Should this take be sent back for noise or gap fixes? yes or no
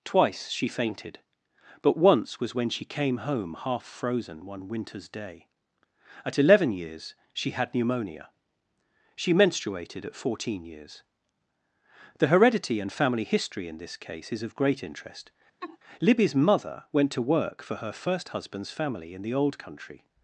yes